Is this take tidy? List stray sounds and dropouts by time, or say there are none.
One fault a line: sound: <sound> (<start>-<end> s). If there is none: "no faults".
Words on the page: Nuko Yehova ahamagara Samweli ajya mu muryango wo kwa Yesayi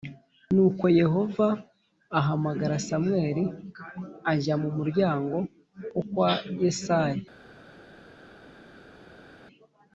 no faults